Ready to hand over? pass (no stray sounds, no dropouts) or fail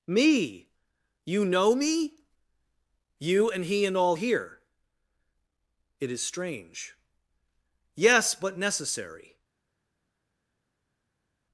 pass